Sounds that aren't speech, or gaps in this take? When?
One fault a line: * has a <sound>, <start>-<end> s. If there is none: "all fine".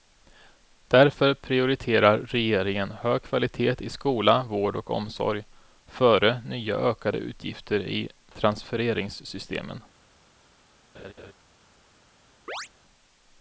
* has a laugh, 10.9-11.3 s
* has a chirp, 12.5-12.7 s